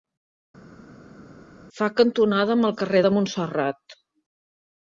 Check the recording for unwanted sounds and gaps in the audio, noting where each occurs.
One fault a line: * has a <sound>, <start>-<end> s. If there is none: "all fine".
all fine